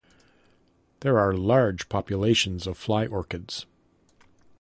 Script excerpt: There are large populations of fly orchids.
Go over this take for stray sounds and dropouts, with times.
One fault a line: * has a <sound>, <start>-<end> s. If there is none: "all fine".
all fine